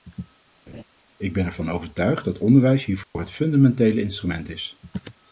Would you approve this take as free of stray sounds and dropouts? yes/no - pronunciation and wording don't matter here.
no